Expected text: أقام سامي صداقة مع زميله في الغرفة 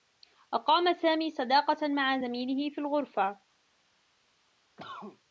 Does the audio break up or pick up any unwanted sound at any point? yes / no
yes